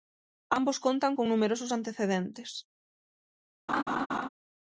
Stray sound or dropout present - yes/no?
yes